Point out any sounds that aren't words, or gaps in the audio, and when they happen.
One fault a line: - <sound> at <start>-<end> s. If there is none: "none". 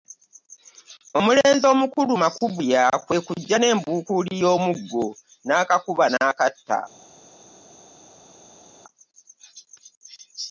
none